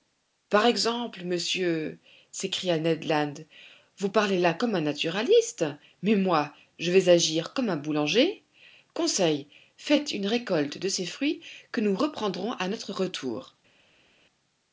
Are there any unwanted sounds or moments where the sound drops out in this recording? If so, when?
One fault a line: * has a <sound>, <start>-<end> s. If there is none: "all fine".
all fine